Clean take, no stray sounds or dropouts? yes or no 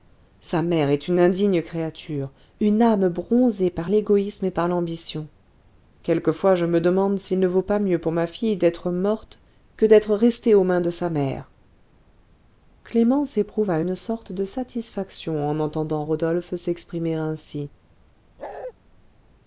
no